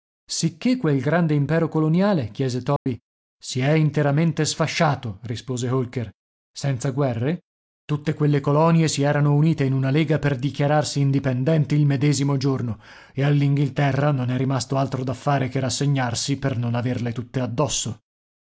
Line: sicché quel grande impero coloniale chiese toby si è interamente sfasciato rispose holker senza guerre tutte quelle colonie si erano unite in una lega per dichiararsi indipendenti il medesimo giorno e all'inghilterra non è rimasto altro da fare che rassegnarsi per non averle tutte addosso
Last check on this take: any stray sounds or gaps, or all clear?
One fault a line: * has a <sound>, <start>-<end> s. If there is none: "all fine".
* has a dropout, 2.8-2.9 s